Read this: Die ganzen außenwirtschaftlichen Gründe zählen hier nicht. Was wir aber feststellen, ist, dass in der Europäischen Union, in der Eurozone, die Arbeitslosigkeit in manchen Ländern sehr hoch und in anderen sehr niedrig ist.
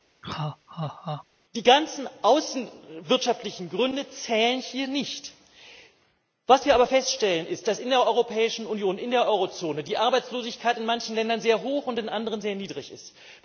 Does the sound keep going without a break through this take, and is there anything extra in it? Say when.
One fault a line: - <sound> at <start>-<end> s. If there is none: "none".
- laugh at 0.2-1.2 s